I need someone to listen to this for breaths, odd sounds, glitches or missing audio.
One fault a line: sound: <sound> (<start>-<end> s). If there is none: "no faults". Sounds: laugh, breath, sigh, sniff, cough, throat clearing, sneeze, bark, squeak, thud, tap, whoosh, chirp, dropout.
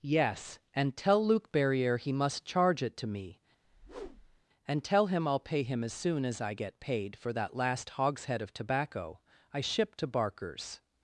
sound: whoosh (3.6-4.4 s)